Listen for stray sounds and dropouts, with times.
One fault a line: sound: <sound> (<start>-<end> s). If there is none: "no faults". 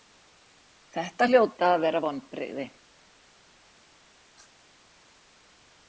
no faults